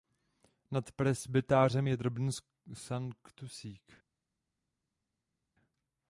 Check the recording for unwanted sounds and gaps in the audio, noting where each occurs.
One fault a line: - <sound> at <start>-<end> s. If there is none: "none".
none